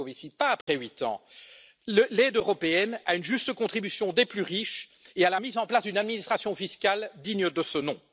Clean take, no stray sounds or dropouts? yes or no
no